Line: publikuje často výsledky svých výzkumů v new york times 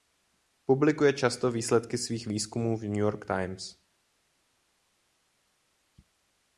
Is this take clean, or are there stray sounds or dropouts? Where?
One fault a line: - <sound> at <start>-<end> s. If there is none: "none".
none